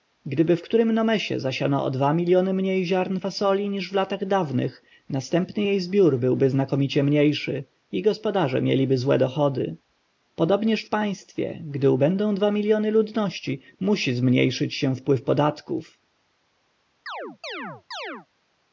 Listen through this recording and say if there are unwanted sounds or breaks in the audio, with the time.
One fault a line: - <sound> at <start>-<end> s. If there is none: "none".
- chirp at 17.1-18.3 s